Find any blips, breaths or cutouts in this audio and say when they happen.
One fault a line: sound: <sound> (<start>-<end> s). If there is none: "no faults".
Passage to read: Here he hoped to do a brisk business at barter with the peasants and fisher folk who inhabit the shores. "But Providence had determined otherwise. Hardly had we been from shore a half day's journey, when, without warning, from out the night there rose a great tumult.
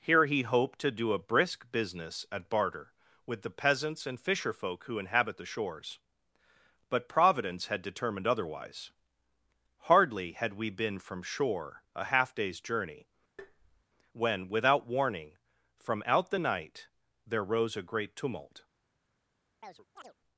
sound: tap (13.4-13.8 s)
sound: chirp (19.6-20.1 s)